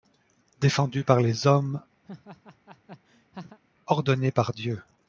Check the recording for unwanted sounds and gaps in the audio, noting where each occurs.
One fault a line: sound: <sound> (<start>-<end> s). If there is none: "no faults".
sound: laugh (2.0-3.6 s)